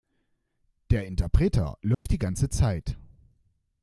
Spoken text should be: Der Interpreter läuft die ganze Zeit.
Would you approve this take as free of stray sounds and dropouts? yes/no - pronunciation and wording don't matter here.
no